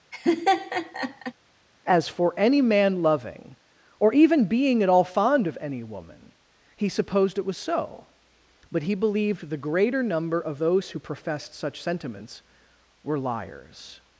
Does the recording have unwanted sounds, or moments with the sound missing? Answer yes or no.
yes